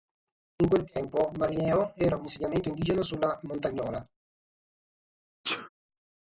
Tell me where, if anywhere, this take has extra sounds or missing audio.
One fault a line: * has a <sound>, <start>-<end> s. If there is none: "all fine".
* has a sneeze, 5.4-5.7 s